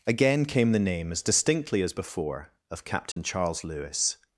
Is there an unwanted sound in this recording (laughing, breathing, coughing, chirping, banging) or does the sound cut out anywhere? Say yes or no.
yes